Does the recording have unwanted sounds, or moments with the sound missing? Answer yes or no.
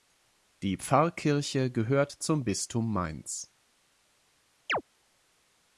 yes